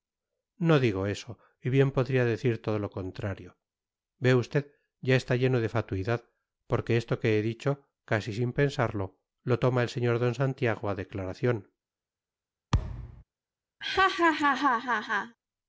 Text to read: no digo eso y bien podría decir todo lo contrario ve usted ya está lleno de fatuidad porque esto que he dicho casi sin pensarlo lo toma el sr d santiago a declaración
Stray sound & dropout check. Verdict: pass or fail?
fail